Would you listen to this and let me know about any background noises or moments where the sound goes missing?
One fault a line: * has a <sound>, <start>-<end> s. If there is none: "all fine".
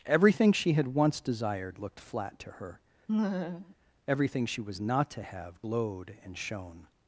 * has a laugh, 3.1-3.7 s